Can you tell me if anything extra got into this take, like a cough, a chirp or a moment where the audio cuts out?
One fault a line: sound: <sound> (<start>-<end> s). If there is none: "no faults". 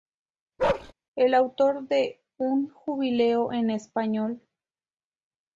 sound: bark (0.6-0.9 s)